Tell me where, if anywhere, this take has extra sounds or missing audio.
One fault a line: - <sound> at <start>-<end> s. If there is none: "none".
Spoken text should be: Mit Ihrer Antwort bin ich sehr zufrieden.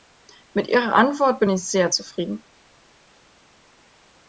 none